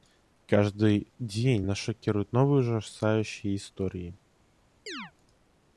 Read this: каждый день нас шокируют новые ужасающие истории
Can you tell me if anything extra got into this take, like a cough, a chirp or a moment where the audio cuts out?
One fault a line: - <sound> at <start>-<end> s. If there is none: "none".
- chirp at 4.9-5.1 s